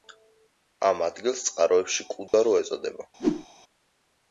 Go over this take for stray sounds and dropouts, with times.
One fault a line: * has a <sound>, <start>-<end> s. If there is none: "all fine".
* has a dropout, 2.3-2.3 s
* has a whoosh, 3.2-3.5 s